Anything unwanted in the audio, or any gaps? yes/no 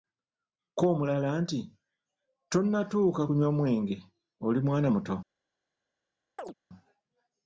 yes